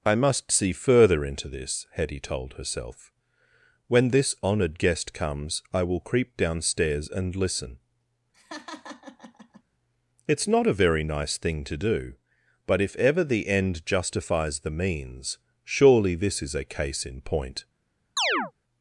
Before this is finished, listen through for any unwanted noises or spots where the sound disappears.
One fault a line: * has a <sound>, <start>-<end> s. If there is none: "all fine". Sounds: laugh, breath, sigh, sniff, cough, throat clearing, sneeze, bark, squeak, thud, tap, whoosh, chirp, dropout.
* has a laugh, 8.3-9.6 s
* has a chirp, 18.2-18.5 s